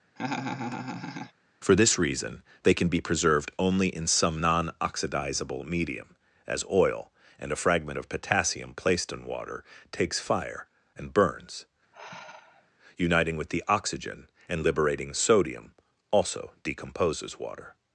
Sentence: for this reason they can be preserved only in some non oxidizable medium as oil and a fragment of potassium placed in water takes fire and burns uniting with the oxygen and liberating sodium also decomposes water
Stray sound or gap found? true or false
true